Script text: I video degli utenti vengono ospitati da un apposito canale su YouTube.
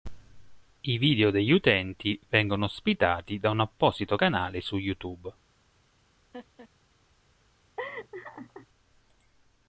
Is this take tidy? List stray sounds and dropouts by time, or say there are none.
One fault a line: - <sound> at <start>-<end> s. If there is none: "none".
- laugh at 6.3-6.7 s
- laugh at 7.8-8.7 s